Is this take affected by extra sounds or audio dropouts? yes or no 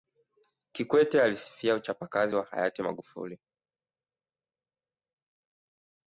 no